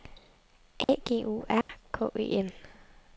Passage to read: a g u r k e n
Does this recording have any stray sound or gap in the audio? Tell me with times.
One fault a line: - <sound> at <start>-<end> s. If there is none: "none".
- dropout at 0.8-0.9 s
- dropout at 1.6-1.7 s